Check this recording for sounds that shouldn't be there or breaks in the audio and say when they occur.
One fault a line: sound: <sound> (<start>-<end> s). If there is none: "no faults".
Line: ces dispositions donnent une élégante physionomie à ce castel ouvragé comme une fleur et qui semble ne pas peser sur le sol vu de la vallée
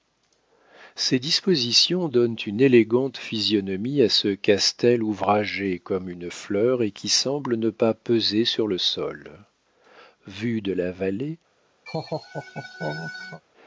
sound: laugh (11.9-13.4 s)